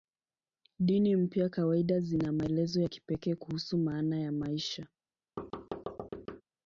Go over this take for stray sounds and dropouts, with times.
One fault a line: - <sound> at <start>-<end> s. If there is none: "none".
- thud at 5.4-6.4 s